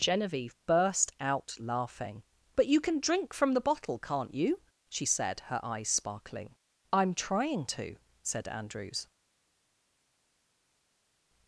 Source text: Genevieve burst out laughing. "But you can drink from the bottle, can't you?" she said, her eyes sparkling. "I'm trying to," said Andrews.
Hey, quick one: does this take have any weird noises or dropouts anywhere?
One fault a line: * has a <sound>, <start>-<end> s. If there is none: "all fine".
all fine